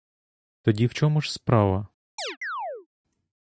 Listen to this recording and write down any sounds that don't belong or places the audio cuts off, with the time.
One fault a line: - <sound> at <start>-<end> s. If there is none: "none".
- chirp at 2.2-2.9 s